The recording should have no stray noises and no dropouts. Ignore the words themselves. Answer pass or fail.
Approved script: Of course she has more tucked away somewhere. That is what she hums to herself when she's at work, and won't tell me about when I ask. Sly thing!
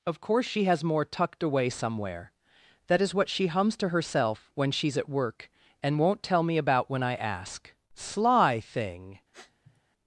fail